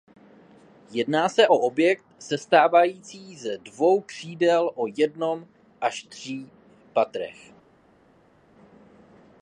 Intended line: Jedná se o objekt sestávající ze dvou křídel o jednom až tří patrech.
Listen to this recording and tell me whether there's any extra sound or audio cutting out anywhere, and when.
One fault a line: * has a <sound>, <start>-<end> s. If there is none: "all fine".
all fine